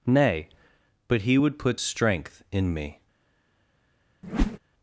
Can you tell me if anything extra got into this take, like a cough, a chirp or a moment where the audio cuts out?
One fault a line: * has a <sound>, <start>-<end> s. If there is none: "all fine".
* has a whoosh, 4.2-4.6 s